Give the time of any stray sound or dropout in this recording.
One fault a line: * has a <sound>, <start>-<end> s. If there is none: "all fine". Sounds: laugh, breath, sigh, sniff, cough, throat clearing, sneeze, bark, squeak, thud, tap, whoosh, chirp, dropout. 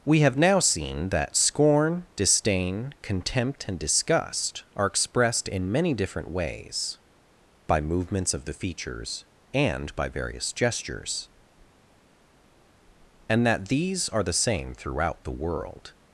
all fine